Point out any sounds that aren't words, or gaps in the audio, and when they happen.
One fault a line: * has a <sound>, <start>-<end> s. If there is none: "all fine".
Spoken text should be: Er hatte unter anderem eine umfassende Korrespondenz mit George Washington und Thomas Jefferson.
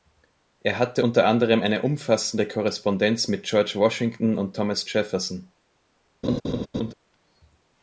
* has a laugh, 6.2-6.9 s